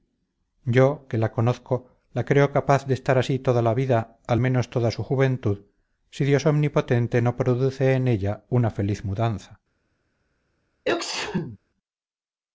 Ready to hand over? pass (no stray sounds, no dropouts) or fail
fail